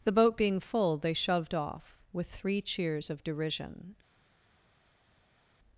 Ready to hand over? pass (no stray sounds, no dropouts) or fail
pass